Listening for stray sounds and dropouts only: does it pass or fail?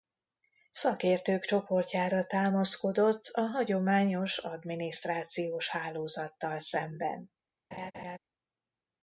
fail